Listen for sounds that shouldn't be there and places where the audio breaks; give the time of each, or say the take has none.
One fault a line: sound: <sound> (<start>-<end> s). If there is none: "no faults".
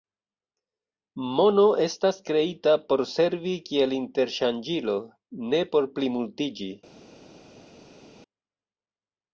no faults